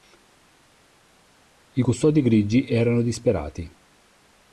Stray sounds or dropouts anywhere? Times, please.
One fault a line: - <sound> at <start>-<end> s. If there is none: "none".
none